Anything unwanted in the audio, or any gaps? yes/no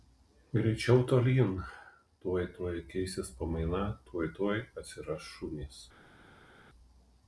no